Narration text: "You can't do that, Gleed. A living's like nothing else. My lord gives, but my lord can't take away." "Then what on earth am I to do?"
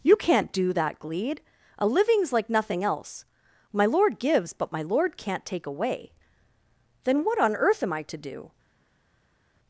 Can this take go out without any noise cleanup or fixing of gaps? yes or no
yes